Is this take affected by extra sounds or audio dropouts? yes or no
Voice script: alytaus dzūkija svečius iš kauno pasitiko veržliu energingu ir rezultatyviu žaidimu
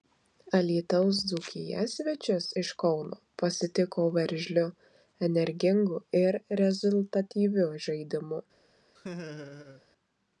yes